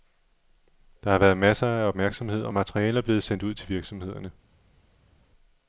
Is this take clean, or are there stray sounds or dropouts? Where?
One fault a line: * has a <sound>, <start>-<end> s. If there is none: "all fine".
all fine